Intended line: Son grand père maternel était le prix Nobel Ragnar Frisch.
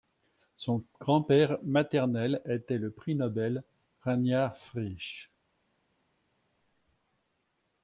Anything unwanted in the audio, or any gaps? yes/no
no